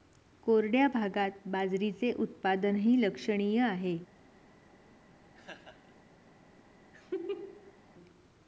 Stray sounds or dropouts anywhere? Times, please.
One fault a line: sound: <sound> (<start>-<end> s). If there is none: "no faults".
sound: laugh (5.3-6.0 s)
sound: laugh (6.9-7.8 s)